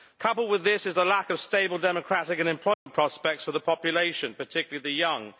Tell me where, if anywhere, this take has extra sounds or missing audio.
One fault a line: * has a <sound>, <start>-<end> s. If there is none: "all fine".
* has a dropout, 2.7-2.9 s